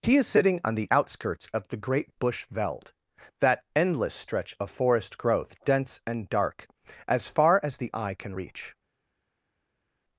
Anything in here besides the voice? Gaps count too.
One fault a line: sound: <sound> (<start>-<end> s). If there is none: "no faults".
no faults